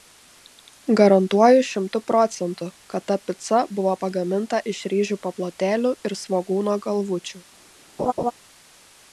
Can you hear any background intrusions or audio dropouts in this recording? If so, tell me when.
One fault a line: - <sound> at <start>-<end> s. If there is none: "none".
- laugh at 8.0-8.3 s